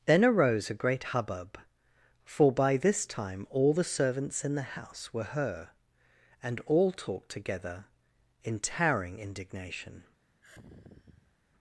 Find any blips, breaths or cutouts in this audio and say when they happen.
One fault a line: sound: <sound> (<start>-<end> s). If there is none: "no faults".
sound: sigh (10.4-11.4 s)